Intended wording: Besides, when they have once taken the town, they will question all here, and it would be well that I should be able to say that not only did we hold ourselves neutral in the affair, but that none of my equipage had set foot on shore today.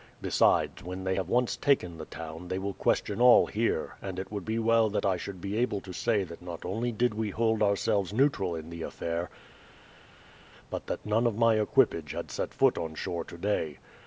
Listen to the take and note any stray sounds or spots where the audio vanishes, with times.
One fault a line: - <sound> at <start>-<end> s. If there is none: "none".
none